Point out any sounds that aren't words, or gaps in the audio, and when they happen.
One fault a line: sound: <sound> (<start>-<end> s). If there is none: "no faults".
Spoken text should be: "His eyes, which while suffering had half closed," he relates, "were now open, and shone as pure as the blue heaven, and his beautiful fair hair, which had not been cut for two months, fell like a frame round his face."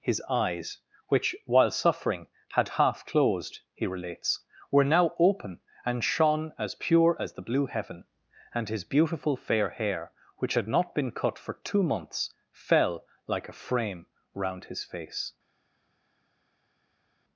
no faults